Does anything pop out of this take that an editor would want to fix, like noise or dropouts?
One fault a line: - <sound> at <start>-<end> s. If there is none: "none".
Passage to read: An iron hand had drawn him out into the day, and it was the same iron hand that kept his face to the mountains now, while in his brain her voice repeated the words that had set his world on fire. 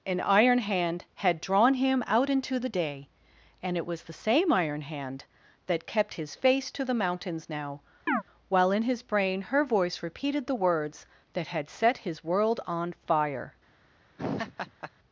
- chirp at 8.1-8.2 s
- laugh at 14.2-14.9 s